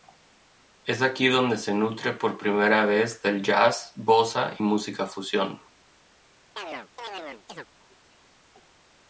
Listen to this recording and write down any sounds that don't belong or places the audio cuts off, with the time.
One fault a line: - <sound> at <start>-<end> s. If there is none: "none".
- chirp at 6.6-7.7 s